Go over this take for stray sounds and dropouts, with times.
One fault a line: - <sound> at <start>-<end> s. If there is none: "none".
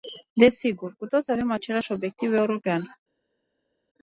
none